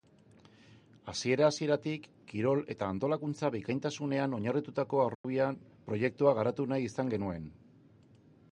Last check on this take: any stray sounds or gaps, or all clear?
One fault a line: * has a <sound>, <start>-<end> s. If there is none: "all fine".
* has a dropout, 5.1-5.2 s